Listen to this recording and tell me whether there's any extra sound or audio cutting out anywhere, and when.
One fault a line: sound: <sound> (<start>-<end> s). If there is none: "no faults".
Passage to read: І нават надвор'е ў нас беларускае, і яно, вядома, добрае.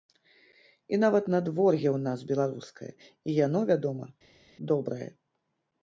no faults